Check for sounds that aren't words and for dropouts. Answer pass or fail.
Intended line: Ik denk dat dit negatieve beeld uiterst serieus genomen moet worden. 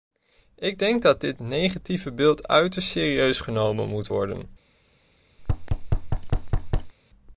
fail